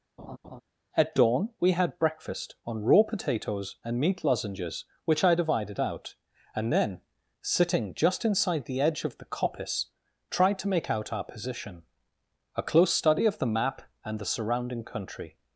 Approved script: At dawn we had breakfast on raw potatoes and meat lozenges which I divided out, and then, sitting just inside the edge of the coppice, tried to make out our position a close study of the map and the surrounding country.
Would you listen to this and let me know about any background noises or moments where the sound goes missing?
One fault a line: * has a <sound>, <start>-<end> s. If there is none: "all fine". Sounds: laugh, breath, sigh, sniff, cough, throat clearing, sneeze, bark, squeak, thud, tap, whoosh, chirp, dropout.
* has a laugh, 0.2-0.6 s